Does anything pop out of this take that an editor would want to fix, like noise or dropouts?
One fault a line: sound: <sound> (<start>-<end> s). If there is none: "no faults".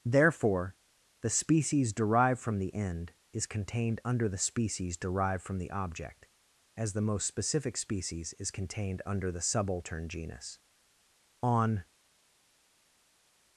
no faults